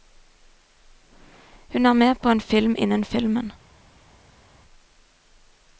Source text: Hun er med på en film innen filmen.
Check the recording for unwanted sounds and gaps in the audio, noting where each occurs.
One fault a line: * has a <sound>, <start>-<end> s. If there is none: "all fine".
all fine